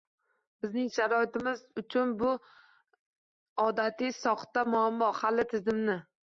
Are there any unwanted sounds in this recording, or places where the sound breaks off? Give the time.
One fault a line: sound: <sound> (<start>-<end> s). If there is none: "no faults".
no faults